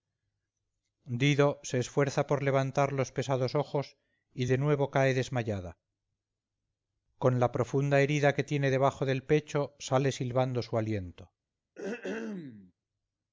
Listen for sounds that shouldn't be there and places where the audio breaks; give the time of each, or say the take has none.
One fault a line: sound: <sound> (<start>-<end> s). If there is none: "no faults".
sound: throat clearing (11.7-12.7 s)